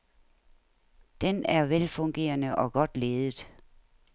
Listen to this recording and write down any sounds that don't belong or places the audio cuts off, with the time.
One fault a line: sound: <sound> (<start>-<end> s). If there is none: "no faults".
no faults